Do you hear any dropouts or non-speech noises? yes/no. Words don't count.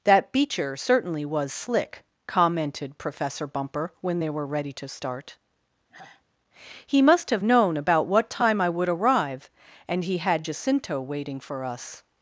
yes